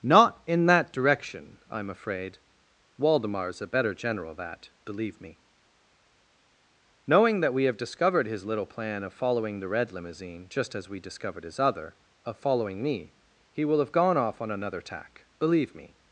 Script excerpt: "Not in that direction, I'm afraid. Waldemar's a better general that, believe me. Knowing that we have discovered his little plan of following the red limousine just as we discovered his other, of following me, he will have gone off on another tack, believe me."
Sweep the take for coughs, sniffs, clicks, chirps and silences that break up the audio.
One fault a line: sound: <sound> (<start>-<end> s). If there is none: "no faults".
no faults